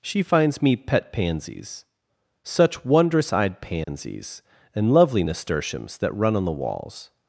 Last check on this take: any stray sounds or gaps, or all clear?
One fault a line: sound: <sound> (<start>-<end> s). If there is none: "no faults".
sound: dropout (3.8-3.9 s)